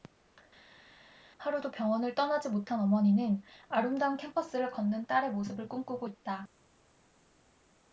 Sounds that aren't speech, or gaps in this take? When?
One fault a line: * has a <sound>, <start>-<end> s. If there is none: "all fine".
all fine